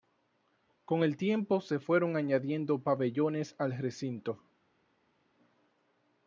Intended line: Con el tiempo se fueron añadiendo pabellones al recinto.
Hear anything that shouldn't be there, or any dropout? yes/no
no